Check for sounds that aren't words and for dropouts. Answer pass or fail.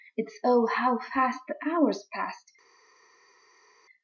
pass